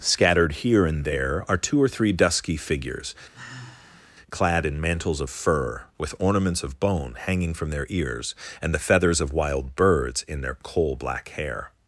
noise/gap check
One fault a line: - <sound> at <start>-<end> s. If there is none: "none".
- sigh at 3.3-4.1 s